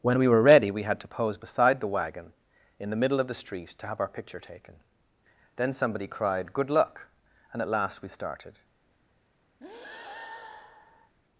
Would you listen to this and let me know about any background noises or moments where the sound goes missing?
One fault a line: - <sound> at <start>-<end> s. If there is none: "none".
- breath at 9.6-11.1 s